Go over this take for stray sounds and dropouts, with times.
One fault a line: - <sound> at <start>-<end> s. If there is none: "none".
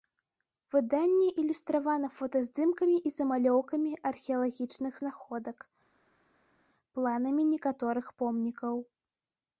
none